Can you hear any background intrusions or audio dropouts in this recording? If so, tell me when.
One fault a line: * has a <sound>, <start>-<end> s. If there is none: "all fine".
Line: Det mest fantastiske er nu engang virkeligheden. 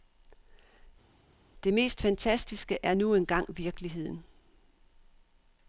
all fine